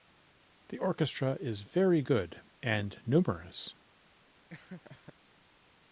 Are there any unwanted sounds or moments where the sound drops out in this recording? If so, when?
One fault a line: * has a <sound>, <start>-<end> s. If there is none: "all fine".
* has a laugh, 4.5-5.1 s